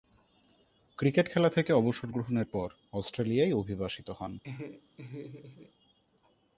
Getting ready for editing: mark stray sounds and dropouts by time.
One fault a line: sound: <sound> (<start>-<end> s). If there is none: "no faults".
sound: laugh (4.4-5.7 s)